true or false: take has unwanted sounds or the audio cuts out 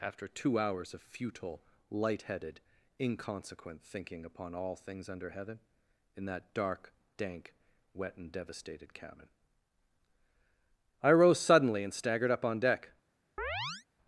true